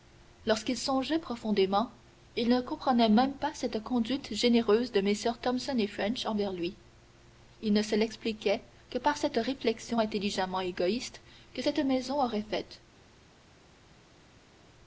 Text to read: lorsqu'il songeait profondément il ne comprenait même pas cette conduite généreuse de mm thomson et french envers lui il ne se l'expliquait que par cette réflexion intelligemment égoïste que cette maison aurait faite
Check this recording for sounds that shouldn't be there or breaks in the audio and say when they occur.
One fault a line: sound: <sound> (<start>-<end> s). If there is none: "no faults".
no faults